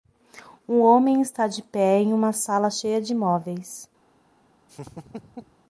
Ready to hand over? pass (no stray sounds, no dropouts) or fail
fail